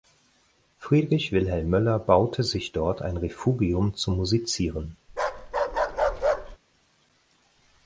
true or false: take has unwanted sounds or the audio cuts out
true